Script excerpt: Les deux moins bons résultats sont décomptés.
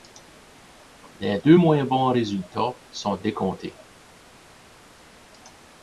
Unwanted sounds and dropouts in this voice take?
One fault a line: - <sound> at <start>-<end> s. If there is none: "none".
none